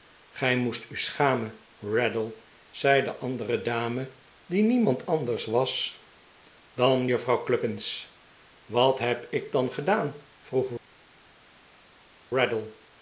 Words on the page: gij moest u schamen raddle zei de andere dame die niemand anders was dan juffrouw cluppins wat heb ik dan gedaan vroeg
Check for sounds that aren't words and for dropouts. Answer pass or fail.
pass